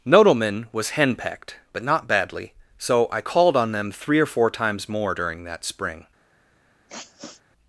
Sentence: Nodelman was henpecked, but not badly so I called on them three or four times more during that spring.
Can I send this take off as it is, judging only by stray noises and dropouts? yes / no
no